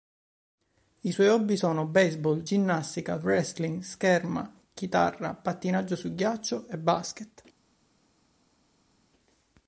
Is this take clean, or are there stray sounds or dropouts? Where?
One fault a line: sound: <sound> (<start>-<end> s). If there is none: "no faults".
no faults